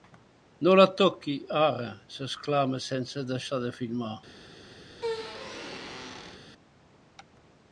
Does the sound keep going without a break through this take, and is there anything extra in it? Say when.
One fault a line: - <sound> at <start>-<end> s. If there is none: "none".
- squeak at 4.9-6.4 s